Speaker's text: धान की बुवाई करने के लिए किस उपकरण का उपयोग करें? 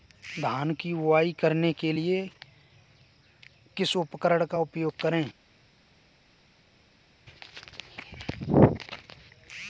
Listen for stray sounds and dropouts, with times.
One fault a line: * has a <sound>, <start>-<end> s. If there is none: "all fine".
all fine